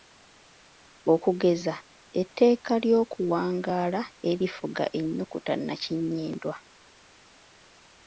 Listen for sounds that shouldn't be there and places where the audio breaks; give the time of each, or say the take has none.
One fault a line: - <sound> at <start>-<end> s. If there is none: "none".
none